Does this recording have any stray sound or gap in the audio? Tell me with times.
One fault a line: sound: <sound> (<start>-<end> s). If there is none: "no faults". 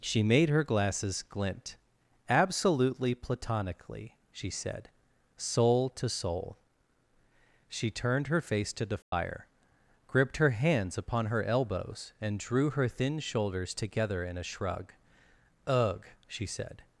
sound: dropout (9.0-9.1 s)